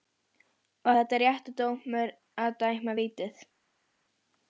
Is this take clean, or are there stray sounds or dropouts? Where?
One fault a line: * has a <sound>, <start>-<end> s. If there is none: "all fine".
all fine